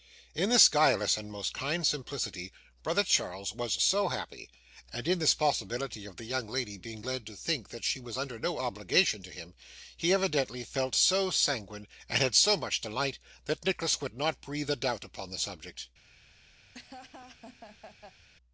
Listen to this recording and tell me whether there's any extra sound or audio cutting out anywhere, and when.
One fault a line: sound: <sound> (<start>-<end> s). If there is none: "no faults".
sound: laugh (16.7-18.3 s)